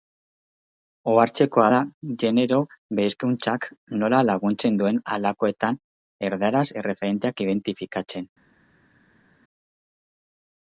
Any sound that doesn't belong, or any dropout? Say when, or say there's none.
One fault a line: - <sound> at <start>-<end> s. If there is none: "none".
none